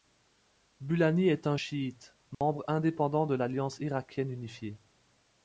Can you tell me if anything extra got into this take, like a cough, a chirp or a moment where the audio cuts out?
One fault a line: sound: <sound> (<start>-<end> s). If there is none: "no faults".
sound: dropout (2.3-2.4 s)